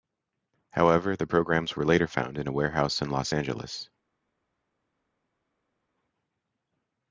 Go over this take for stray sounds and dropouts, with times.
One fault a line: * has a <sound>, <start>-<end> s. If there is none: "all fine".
all fine